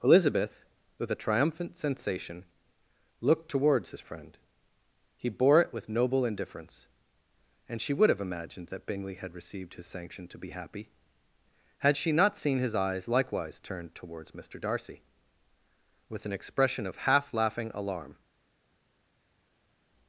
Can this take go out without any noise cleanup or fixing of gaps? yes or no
yes